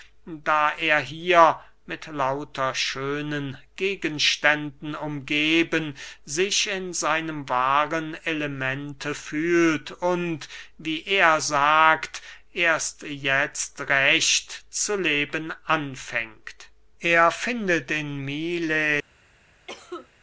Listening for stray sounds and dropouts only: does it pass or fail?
fail